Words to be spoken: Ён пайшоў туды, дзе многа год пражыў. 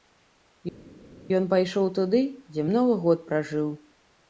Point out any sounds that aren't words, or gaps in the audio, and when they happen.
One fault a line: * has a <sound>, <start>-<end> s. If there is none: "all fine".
all fine